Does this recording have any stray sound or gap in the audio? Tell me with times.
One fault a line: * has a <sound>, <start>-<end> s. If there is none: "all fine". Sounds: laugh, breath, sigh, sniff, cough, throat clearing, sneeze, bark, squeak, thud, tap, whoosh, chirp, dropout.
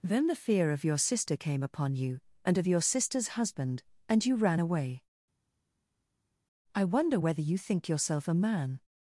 all fine